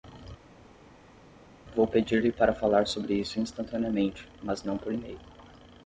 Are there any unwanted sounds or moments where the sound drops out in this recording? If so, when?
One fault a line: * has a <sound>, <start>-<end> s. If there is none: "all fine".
all fine